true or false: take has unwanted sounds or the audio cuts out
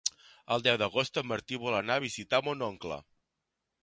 false